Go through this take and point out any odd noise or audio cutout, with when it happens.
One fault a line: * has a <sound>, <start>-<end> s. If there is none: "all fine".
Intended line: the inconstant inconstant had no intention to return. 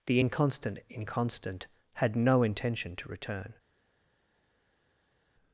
all fine